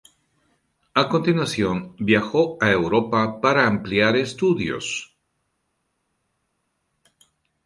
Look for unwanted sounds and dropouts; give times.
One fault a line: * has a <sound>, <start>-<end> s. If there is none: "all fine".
all fine